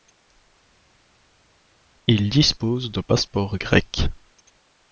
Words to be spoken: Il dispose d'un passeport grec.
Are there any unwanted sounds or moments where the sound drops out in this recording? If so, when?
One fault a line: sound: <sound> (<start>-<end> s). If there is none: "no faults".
no faults